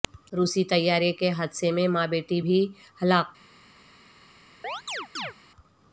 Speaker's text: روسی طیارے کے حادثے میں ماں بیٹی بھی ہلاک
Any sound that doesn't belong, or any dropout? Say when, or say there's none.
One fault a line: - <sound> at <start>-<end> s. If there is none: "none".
- chirp at 4.6-5.3 s